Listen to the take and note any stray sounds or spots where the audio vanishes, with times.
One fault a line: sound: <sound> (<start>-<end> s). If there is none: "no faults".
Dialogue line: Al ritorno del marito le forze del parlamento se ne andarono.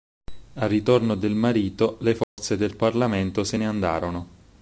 sound: dropout (2.2-2.4 s)